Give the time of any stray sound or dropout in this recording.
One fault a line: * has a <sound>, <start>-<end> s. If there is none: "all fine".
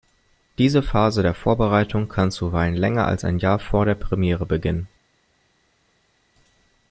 all fine